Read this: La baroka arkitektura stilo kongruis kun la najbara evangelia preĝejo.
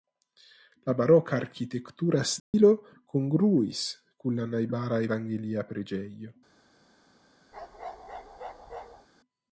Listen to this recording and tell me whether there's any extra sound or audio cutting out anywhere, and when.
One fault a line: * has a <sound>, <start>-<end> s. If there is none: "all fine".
* has a dropout, 2.4-2.5 s
* has a bark, 7.5-9.1 s